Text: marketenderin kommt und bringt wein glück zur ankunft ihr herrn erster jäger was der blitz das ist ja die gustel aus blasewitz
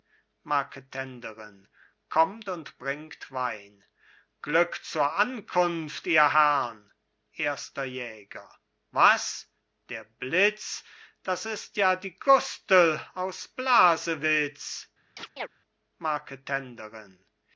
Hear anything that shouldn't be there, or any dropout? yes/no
yes